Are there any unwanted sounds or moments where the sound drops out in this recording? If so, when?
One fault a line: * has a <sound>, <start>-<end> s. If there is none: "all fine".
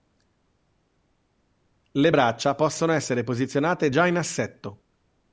all fine